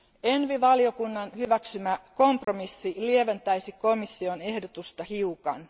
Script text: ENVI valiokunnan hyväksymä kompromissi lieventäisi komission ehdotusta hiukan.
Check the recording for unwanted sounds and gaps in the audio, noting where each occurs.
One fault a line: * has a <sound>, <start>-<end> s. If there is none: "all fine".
* has a dropout, 2.4-2.5 s